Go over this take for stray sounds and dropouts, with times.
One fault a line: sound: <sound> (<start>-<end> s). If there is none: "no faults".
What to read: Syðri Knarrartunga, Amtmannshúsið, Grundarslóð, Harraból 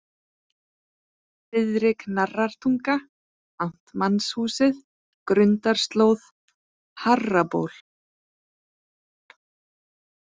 no faults